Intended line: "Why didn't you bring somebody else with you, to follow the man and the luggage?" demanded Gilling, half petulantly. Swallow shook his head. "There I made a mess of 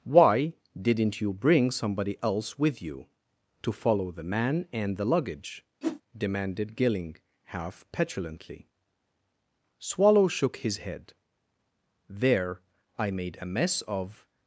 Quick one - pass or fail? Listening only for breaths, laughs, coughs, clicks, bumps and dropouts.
fail